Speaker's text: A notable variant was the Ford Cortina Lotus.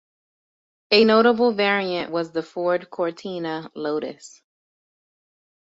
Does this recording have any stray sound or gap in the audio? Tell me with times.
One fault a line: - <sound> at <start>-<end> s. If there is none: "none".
none